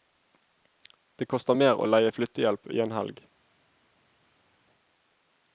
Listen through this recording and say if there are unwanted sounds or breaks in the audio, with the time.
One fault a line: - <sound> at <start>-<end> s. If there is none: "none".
none